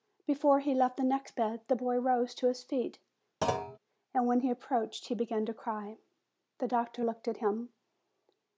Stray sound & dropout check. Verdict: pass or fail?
fail